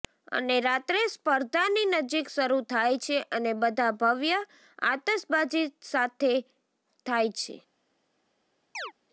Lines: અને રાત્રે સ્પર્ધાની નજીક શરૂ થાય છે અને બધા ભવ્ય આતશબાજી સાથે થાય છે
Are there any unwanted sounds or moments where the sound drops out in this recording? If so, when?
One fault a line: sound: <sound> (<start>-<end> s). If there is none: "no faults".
sound: chirp (8.7-8.9 s)